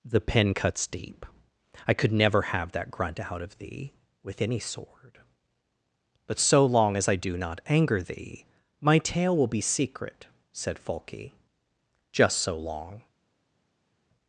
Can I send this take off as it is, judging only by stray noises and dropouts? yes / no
yes